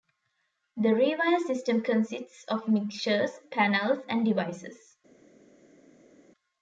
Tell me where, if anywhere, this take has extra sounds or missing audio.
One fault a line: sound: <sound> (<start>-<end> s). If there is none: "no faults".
no faults